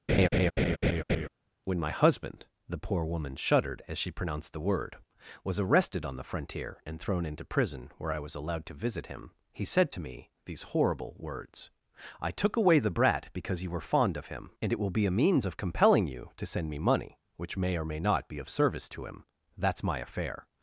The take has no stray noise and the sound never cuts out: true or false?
false